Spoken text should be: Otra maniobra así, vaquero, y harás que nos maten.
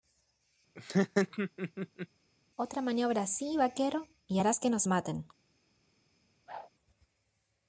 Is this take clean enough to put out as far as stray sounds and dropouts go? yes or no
no